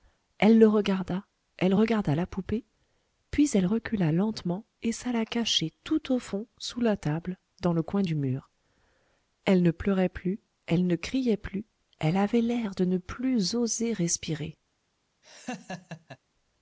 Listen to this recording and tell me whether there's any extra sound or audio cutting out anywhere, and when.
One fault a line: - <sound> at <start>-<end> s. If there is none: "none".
- laugh at 15.2-16.2 s